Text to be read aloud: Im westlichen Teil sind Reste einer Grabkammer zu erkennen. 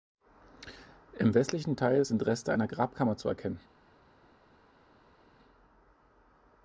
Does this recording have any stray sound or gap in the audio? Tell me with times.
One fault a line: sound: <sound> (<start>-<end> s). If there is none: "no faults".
no faults